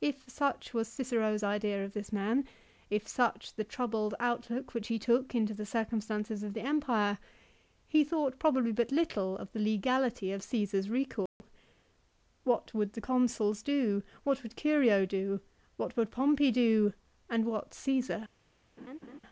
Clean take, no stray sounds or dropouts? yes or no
no